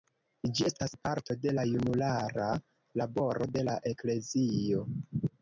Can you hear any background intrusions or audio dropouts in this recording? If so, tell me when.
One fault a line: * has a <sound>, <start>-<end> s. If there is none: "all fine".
all fine